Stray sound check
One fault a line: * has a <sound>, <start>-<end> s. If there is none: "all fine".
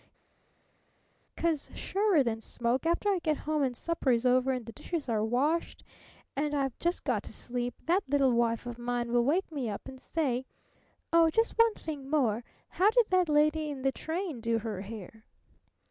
all fine